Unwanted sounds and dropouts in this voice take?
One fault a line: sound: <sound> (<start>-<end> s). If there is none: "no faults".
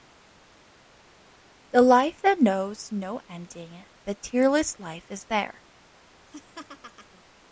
sound: laugh (6.3-7.2 s)